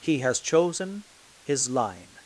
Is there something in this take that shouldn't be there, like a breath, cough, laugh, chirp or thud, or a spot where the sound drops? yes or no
no